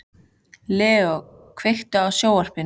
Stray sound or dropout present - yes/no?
no